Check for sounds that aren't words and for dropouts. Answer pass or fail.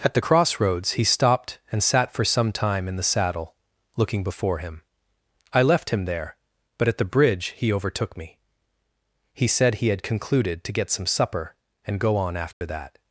fail